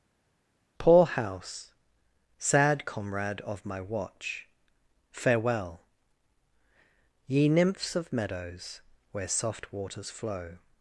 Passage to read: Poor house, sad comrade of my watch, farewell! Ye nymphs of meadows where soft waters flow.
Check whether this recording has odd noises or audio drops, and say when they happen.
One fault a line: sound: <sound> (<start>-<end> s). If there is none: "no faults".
no faults